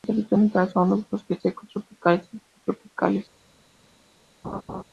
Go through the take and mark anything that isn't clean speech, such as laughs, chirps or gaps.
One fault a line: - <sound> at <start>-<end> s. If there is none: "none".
- laugh at 4.4-4.8 s